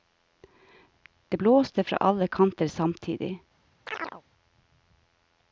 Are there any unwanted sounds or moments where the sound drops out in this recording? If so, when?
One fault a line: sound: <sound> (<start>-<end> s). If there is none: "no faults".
sound: chirp (3.9-4.2 s)